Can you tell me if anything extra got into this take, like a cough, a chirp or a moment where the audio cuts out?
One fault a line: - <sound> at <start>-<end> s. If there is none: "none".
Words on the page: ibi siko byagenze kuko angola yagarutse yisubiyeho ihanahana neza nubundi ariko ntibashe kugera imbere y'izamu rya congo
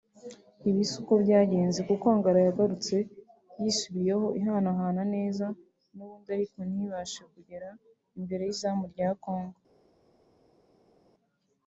none